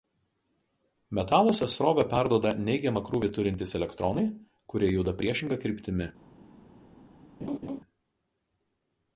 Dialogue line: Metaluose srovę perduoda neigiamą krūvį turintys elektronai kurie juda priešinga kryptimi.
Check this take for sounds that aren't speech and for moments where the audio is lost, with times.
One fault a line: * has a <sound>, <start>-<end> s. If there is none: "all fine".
* has a laugh, 7.4-7.8 s